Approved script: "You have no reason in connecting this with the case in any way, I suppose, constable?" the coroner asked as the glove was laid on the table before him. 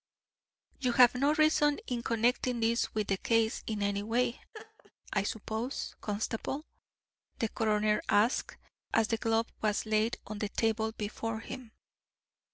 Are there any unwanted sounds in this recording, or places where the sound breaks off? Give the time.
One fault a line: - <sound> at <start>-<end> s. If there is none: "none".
- laugh at 4.5-4.9 s